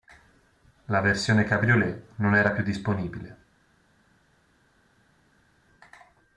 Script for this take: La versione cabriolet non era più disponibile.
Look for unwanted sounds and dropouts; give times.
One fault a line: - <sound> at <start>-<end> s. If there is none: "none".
none